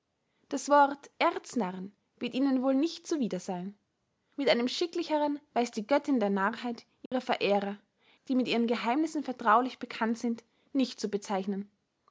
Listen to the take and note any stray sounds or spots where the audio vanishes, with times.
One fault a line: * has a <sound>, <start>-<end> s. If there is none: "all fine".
* has a dropout, 7.1-7.1 s